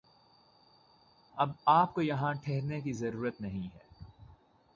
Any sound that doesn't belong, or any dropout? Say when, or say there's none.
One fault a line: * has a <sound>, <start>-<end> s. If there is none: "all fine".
all fine